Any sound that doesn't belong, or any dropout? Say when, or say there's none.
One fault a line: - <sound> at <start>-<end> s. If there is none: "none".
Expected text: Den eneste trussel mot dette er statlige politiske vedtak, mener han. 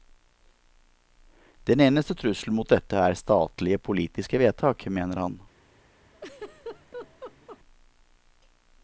- laugh at 6.1-7.6 s